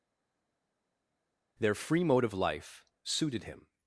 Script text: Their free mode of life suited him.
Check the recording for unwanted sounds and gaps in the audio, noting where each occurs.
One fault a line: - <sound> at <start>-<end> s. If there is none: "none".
none